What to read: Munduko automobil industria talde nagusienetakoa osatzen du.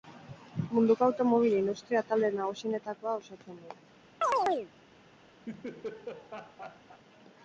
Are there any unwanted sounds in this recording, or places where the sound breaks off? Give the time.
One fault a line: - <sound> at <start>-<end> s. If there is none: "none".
- chirp at 4.2-4.7 s
- laugh at 5.5-7.0 s